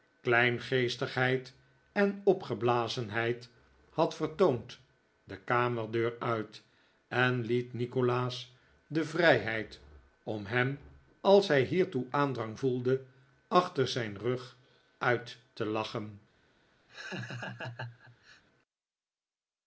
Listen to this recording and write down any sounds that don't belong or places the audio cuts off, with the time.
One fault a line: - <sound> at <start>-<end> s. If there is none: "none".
- laugh at 16.9-18.4 s